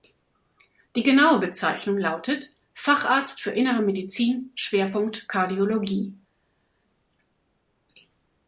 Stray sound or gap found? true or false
false